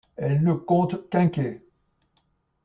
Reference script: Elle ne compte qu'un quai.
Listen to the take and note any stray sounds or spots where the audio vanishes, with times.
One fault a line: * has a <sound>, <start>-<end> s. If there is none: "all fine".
all fine